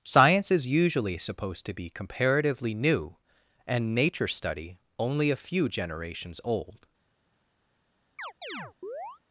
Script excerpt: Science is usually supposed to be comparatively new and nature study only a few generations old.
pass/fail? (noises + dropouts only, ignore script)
fail